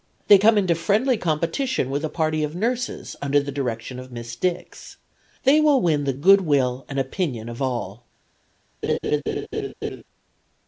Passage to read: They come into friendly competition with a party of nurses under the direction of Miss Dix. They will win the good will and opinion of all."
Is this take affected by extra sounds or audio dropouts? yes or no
yes